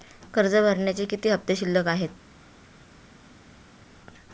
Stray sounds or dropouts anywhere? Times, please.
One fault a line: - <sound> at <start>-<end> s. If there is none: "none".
none